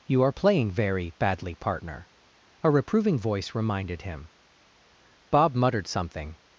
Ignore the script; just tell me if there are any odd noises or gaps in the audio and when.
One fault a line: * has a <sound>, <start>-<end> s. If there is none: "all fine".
all fine